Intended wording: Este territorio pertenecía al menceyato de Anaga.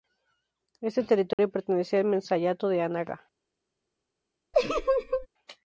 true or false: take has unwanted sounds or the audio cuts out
true